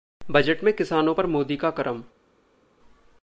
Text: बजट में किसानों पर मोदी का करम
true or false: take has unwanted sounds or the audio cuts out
false